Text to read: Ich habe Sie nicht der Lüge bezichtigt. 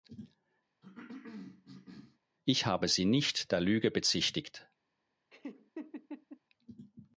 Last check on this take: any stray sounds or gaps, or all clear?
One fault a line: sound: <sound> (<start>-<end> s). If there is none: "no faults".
sound: cough (0.8-2.2 s)
sound: laugh (5.3-6.4 s)